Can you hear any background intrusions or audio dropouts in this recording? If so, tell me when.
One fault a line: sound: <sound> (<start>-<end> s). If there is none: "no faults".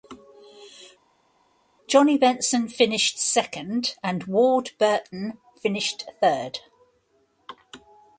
no faults